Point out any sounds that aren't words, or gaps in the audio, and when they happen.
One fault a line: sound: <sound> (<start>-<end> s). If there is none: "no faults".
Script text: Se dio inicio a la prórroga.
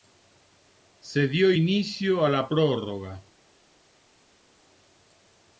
no faults